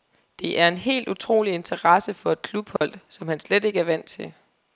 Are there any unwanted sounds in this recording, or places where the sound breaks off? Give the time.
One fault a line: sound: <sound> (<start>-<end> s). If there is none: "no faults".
sound: dropout (2.8-2.8 s)